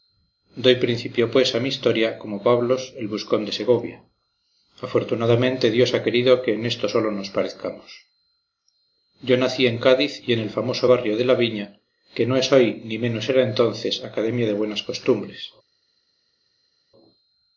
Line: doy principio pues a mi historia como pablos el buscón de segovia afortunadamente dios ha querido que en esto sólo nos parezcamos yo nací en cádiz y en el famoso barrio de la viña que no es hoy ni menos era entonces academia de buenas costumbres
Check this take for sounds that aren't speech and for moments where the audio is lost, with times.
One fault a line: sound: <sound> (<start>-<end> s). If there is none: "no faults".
no faults